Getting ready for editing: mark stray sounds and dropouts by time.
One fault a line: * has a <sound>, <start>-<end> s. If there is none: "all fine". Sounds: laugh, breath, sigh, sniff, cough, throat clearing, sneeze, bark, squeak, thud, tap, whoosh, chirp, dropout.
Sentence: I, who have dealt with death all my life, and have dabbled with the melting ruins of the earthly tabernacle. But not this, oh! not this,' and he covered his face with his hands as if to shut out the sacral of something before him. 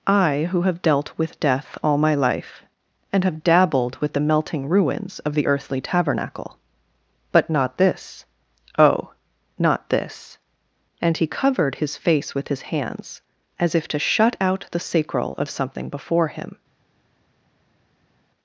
all fine